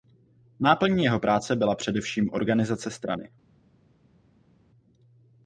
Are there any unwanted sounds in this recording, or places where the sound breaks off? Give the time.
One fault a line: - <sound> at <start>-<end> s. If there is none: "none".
none